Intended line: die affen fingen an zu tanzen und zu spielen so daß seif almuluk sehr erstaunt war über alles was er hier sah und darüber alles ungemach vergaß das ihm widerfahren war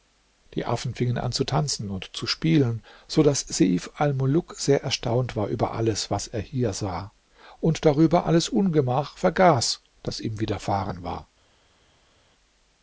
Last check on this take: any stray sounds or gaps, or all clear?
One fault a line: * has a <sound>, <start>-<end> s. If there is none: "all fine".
all fine